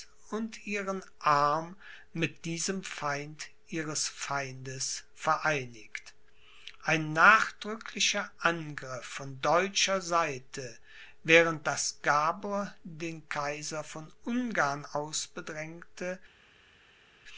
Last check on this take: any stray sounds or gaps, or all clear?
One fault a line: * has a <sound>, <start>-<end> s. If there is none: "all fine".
all fine